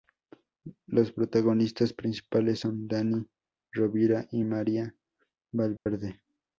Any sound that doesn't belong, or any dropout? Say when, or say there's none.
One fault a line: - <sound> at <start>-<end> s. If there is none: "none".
- dropout at 5.8-5.9 s